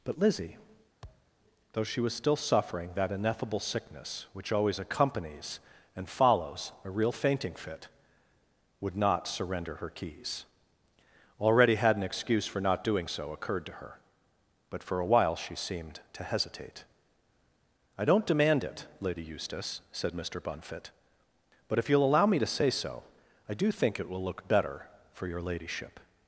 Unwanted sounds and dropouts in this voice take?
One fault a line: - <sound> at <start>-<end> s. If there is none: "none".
- thud at 1.0-1.3 s